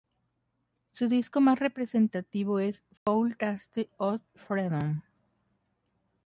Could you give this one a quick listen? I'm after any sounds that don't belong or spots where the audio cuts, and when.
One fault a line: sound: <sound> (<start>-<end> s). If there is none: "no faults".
sound: dropout (3.0-3.1 s)